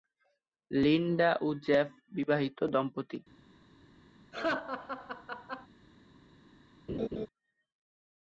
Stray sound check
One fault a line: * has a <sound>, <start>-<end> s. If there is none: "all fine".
* has a laugh, 4.3-5.7 s
* has a laugh, 6.9-7.3 s